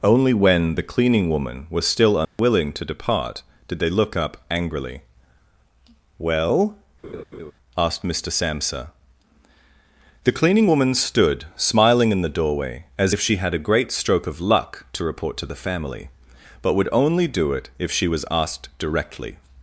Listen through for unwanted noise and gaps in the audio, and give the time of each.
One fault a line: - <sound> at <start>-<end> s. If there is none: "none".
- dropout at 2.2-2.4 s
- laugh at 7.0-7.5 s